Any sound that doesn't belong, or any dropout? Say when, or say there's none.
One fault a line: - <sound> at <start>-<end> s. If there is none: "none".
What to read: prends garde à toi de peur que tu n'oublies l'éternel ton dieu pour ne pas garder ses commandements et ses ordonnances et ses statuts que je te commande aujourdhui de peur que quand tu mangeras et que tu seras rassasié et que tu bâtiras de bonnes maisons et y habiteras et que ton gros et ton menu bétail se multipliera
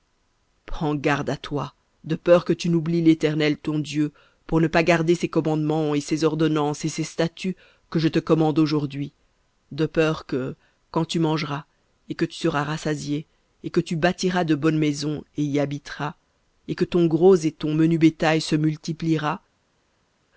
none